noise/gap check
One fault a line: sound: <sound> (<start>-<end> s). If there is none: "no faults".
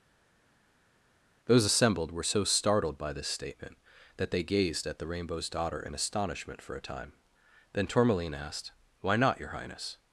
no faults